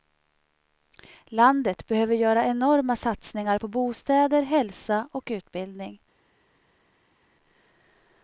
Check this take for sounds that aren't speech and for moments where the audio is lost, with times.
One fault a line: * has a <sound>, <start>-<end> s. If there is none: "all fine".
all fine